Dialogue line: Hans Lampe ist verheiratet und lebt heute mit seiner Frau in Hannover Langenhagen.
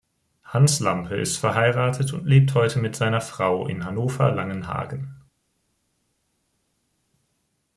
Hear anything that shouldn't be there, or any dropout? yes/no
no